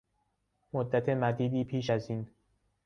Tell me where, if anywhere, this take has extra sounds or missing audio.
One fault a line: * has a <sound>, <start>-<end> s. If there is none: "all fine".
all fine